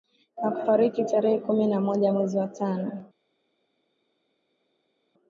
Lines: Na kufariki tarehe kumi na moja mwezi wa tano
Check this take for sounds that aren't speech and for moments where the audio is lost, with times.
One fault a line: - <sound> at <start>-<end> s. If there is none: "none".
none